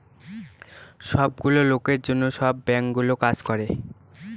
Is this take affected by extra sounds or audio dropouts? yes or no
no